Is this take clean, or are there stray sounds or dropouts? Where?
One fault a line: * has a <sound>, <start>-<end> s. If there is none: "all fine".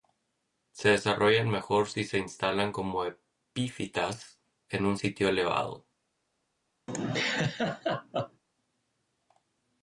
* has a laugh, 6.9-8.4 s